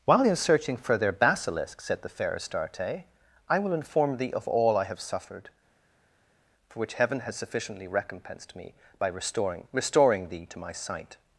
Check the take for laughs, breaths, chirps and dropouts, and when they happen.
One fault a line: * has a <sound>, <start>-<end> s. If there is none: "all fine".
all fine